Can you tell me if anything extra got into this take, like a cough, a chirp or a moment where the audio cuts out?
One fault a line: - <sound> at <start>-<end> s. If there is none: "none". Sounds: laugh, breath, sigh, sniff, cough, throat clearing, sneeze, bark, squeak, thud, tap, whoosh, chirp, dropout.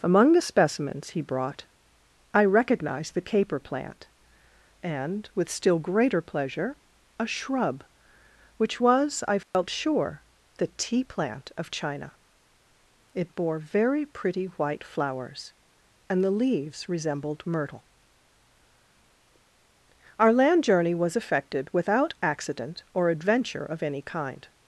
- dropout at 9.4-9.5 s